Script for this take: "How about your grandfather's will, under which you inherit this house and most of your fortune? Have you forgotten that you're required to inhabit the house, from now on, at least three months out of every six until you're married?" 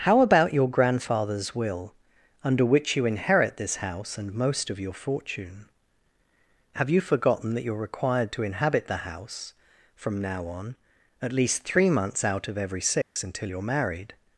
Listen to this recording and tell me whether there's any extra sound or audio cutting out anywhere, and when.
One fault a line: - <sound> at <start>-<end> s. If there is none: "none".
- dropout at 13.0-13.2 s